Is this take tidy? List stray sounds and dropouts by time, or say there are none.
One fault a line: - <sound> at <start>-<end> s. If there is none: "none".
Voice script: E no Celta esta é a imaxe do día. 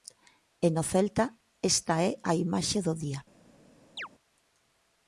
- chirp at 4.0-4.1 s